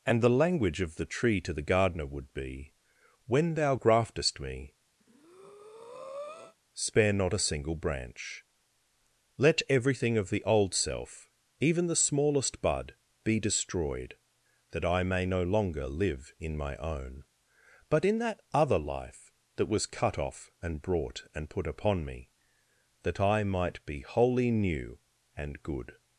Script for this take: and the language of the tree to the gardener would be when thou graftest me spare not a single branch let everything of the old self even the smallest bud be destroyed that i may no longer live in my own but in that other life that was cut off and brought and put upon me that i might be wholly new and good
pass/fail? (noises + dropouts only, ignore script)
fail